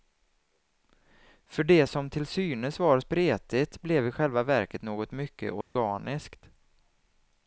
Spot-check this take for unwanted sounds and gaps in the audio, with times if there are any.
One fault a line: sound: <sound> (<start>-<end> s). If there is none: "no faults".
sound: dropout (5.6-5.8 s)